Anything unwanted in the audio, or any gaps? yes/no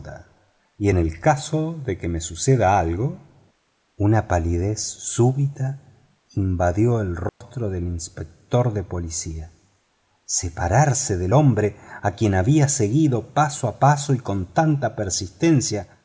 yes